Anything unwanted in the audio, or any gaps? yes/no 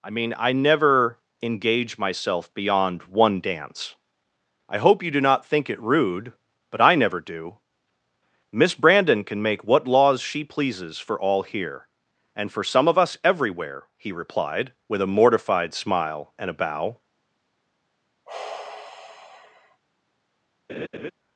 yes